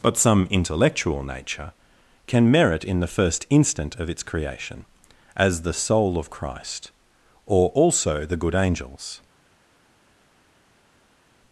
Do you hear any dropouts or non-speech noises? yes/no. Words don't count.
no